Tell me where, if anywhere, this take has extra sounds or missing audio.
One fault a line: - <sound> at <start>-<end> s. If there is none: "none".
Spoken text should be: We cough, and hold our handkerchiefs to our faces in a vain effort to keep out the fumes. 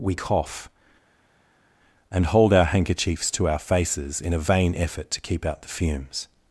none